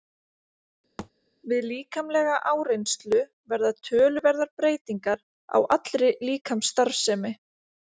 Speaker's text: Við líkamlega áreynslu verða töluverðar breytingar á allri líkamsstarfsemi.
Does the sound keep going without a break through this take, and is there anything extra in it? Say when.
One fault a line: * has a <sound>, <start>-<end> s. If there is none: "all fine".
* has a thud, 1.0-1.1 s